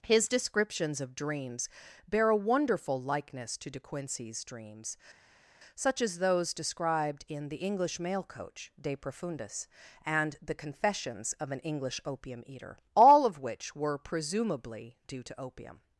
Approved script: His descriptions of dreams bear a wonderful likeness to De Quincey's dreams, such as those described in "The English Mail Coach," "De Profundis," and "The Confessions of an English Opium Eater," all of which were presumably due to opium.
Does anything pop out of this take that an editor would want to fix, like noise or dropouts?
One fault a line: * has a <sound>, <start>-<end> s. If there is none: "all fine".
all fine